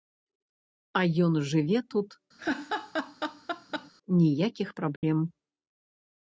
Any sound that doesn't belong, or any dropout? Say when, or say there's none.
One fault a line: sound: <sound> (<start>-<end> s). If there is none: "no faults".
sound: laugh (2.4-3.9 s)
sound: dropout (5.0-5.0 s)